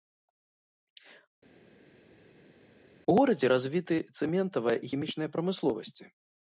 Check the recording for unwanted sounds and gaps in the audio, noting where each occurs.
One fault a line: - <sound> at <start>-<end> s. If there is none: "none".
none